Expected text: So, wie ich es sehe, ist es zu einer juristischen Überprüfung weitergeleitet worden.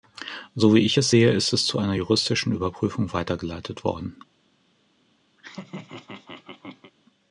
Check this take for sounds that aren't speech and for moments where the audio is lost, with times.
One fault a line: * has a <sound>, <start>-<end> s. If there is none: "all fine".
* has a laugh, 5.4-6.9 s